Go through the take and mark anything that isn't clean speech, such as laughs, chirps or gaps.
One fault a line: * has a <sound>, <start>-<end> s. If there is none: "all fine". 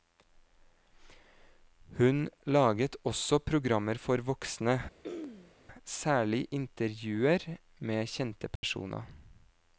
* has a throat clearing, 5.0-5.6 s
* has a dropout, 8.6-8.6 s